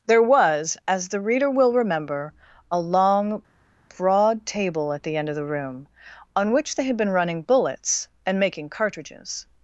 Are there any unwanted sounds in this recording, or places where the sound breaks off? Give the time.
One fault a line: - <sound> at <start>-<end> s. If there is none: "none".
none